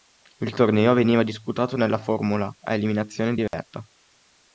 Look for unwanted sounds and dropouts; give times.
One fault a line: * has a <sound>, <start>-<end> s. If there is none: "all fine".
* has a dropout, 3.5-3.5 s